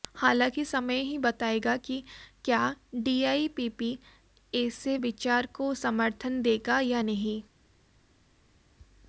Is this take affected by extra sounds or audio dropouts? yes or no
no